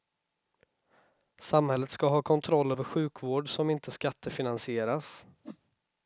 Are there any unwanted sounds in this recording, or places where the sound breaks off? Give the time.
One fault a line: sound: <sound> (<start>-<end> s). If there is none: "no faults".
sound: whoosh (5.4-5.6 s)